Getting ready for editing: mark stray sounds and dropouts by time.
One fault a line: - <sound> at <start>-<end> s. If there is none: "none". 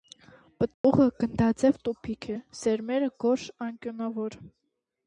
- dropout at 0.7-0.8 s